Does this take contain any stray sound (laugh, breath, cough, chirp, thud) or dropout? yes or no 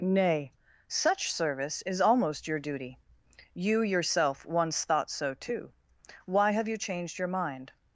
no